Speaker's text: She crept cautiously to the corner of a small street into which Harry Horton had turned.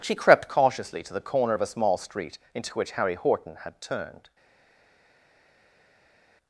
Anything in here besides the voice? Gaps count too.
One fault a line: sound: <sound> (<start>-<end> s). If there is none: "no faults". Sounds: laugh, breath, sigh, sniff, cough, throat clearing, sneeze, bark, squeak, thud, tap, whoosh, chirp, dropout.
no faults